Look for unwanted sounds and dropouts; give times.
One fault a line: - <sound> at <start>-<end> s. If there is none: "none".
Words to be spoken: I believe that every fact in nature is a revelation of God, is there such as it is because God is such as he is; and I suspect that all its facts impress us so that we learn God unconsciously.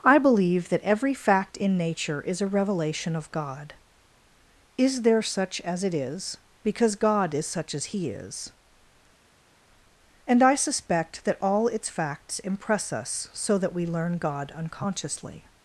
none